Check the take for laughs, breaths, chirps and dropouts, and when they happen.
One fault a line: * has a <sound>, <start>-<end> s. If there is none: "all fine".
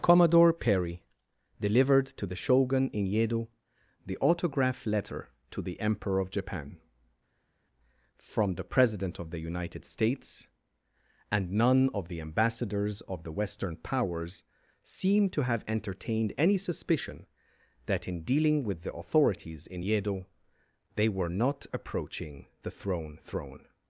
all fine